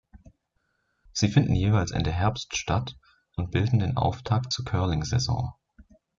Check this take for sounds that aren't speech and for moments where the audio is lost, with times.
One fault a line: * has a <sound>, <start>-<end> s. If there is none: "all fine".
all fine